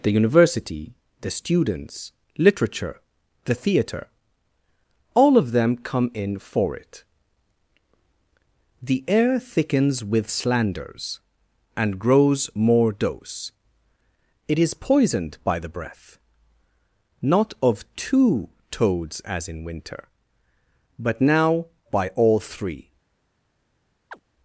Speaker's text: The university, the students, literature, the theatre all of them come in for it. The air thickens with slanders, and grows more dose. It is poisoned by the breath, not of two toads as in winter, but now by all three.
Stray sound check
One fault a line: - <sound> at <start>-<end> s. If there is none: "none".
- chirp at 24.1-24.2 s